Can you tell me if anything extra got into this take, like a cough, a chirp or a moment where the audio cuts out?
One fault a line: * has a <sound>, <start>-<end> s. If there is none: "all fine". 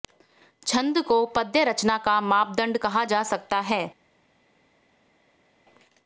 all fine